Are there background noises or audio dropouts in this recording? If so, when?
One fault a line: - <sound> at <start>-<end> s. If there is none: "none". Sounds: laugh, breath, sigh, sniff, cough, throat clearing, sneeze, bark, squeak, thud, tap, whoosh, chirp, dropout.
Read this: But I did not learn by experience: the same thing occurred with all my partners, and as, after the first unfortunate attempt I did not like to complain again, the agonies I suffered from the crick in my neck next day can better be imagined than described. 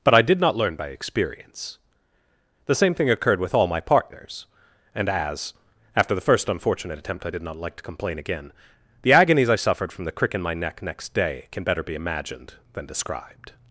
none